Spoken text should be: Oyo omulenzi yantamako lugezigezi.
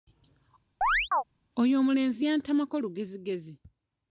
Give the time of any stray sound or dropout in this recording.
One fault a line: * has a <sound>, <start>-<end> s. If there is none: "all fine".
* has a chirp, 0.8-1.2 s